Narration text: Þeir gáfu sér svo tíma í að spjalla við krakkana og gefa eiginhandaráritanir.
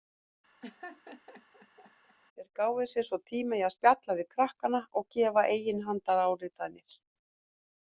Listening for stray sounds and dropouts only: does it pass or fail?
fail